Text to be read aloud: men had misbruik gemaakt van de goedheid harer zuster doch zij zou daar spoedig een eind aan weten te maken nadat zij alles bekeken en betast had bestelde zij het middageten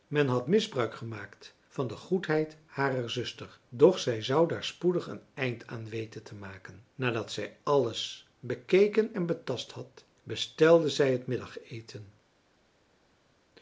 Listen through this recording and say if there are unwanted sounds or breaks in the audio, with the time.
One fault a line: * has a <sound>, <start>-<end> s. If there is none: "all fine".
all fine